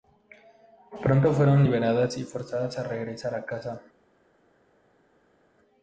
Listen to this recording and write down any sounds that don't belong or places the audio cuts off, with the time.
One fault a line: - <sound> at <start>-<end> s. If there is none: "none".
none